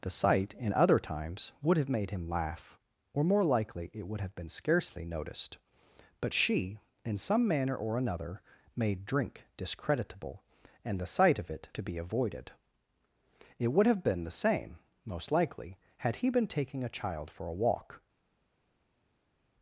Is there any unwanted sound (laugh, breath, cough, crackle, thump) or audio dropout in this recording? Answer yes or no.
no